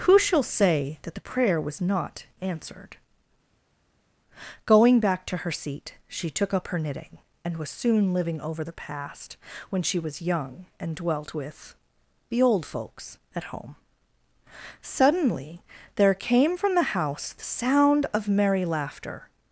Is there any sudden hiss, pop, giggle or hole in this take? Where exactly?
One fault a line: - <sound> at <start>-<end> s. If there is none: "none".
none